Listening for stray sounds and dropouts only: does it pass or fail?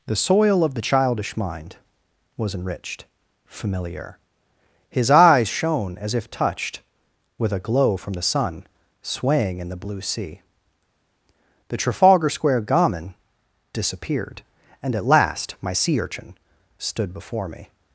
pass